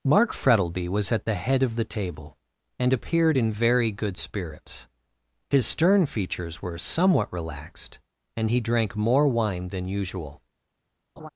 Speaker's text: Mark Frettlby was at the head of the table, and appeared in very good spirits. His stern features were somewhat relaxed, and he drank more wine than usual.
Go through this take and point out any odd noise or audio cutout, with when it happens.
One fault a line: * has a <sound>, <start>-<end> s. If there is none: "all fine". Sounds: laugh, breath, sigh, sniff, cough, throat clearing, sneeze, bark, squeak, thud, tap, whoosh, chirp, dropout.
* has a laugh, 11.2-11.3 s